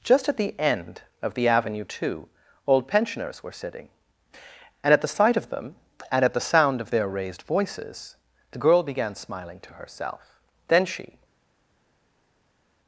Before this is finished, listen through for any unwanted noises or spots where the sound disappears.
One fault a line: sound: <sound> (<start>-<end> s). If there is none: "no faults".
no faults